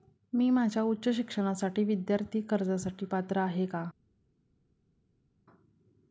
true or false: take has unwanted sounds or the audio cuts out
false